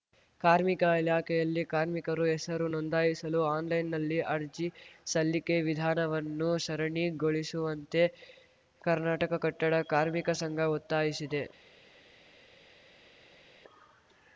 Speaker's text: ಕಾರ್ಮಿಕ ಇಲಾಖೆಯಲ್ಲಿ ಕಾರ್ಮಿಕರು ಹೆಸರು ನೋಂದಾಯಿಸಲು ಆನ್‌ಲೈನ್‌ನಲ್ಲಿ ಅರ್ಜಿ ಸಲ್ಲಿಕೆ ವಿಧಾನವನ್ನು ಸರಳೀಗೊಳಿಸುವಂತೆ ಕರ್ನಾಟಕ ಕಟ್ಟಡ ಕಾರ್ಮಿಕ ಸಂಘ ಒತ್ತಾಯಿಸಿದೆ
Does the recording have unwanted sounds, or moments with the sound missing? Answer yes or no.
no